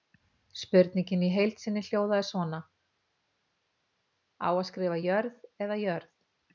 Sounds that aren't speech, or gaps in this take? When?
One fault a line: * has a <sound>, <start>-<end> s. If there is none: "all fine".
all fine